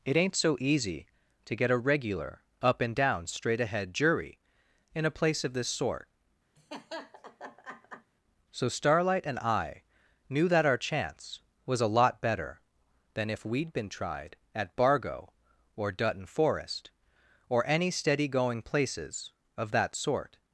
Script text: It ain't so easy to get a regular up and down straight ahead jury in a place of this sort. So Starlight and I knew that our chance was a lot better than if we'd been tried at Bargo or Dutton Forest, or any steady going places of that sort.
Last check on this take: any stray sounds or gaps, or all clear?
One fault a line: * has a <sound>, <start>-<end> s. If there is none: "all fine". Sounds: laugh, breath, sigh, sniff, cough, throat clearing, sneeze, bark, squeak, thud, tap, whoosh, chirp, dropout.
* has a laugh, 6.6-8.1 s